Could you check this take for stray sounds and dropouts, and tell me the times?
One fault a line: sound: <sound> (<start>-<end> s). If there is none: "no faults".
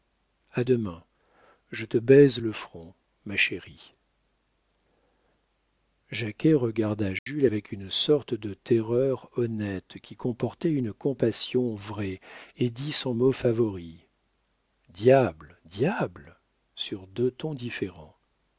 sound: dropout (7.2-7.3 s)